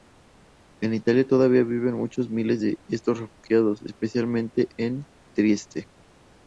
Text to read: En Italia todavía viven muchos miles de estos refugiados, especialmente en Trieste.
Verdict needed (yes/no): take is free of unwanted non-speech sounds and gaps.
yes